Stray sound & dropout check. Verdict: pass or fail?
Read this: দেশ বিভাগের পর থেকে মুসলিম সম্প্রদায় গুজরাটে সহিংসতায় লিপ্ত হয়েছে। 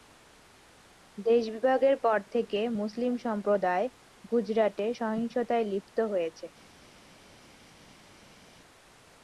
pass